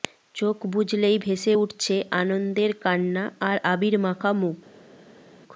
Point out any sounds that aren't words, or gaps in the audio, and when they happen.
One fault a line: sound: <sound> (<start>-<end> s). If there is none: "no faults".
no faults